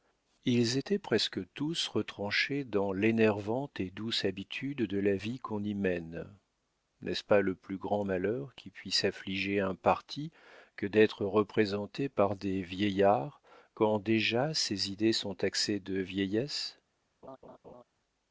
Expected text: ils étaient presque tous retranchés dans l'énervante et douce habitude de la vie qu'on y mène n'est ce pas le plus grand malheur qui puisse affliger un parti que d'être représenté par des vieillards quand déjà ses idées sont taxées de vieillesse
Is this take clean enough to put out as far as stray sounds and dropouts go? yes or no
no